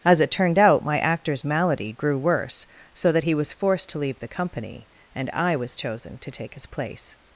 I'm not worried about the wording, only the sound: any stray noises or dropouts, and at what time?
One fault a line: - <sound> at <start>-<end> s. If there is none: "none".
none